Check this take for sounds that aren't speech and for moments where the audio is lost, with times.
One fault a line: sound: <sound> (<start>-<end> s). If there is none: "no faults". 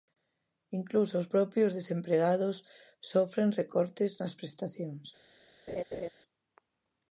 sound: laugh (5.7-6.1 s)